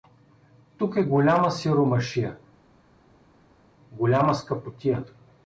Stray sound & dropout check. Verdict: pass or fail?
pass